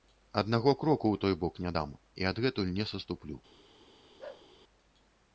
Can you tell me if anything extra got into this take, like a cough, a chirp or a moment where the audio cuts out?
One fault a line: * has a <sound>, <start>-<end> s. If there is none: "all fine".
* has a bark, 4.2-4.5 s